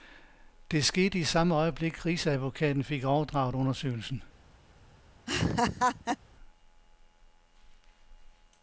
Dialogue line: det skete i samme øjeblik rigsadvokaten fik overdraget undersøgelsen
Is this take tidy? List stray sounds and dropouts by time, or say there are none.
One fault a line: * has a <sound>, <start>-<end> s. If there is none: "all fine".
* has a laugh, 5.3-6.2 s